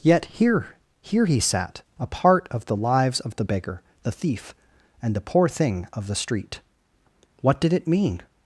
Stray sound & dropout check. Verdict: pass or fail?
pass